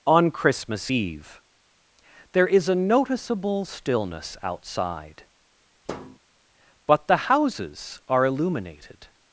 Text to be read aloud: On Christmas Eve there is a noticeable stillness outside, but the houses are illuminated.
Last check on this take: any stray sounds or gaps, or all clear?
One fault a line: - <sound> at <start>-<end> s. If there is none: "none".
- thud at 5.9-6.2 s